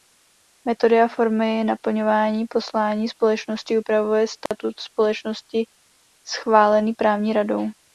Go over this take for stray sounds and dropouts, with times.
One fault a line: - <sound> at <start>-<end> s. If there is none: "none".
- dropout at 4.5-4.5 s